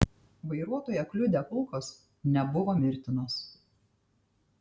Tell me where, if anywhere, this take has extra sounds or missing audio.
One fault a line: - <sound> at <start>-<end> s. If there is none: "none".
none